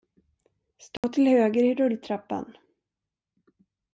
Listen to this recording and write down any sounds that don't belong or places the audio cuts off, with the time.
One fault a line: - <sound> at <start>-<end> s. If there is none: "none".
- dropout at 1.0-1.0 s